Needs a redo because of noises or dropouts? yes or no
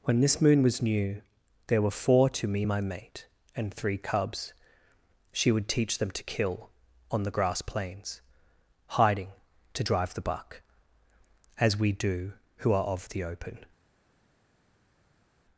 no